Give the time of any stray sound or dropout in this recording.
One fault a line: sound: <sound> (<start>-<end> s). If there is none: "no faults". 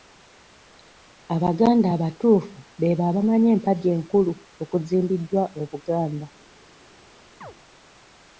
sound: chirp (7.4-7.5 s)